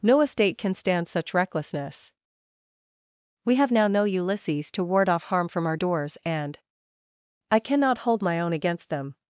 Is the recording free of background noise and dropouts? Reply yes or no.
yes